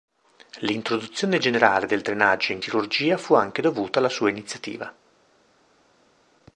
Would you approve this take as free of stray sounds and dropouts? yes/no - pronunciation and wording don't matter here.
yes